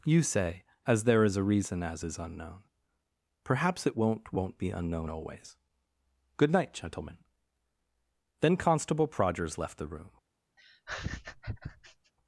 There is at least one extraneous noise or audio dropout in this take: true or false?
true